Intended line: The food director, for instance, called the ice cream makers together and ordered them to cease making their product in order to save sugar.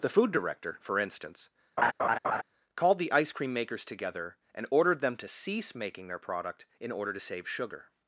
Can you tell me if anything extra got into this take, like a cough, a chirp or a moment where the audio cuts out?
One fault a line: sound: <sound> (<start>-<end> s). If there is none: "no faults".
sound: laugh (1.8-2.4 s)